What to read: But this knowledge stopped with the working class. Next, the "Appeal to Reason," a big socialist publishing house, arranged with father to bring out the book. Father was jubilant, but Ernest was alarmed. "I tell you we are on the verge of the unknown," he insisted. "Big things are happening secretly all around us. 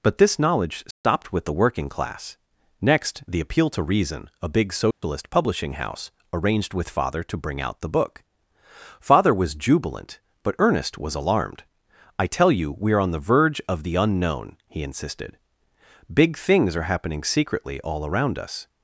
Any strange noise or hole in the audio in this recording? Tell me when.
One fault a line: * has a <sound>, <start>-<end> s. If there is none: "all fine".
* has a dropout, 0.9-1.0 s
* has a dropout, 4.9-5.0 s